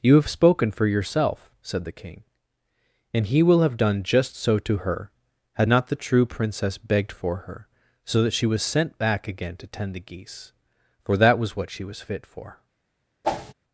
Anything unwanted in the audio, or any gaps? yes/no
yes